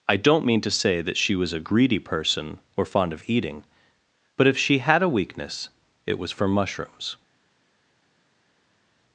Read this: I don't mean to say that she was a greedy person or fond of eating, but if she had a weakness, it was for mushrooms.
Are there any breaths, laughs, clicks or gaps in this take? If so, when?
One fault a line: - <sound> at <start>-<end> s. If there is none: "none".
none